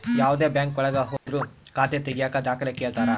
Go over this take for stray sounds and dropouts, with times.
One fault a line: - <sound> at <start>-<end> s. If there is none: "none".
- dropout at 1.2-1.3 s